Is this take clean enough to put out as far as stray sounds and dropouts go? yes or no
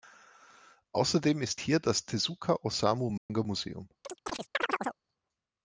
no